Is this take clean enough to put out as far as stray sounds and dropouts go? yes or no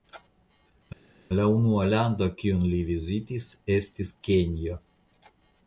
yes